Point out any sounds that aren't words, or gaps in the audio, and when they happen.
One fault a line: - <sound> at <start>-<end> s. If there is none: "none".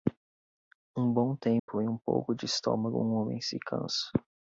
- dropout at 1.6-1.7 s